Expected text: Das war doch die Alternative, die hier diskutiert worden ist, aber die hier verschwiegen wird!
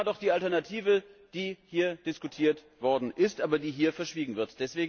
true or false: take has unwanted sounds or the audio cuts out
false